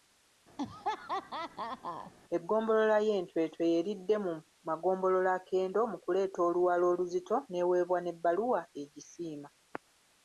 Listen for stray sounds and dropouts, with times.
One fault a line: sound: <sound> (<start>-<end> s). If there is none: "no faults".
sound: laugh (0.6-2.1 s)